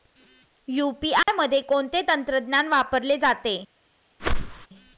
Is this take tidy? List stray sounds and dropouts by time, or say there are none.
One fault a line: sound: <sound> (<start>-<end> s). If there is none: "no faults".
sound: dropout (1.2-1.3 s)
sound: whoosh (4.2-4.7 s)